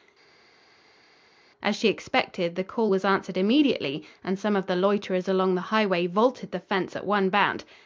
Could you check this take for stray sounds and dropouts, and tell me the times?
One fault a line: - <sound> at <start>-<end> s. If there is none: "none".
none